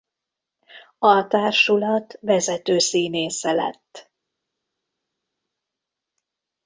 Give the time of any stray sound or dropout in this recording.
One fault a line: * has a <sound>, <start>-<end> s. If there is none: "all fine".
all fine